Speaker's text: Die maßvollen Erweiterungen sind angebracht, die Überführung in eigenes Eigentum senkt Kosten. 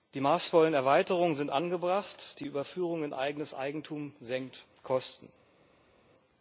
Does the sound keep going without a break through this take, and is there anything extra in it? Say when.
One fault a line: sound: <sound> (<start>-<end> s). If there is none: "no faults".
no faults